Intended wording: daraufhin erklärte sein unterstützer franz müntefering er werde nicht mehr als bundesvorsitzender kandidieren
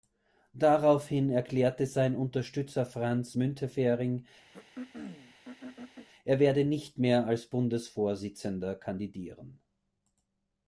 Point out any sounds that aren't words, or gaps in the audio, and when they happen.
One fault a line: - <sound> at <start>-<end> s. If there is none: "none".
- throat clearing at 4.5-6.1 s